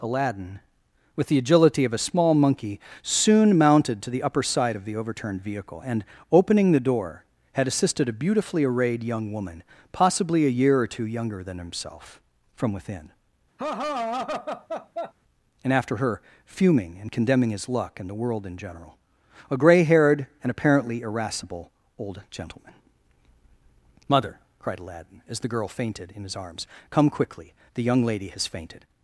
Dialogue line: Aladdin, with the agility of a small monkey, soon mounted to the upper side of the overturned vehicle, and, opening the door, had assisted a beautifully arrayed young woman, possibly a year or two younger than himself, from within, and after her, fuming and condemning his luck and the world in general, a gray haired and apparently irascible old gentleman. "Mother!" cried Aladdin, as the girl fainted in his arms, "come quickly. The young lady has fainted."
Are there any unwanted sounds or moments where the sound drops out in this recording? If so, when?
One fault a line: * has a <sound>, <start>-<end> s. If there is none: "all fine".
* has a laugh, 13.6-15.1 s